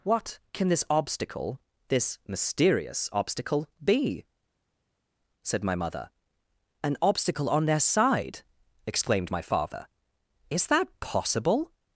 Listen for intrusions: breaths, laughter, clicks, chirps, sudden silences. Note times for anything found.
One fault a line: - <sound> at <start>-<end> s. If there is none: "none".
none